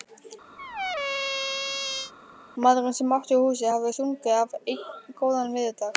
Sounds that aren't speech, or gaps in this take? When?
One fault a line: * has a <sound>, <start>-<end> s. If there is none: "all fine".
* has a squeak, 0.6-2.1 s